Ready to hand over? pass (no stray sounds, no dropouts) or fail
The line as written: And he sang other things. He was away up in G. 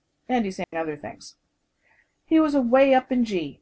fail